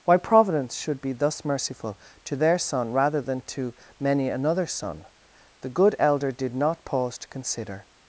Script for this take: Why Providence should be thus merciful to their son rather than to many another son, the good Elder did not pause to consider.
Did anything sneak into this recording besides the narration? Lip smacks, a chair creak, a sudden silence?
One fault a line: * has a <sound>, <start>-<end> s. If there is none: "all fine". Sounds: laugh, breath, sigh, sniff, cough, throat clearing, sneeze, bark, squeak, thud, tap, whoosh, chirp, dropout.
all fine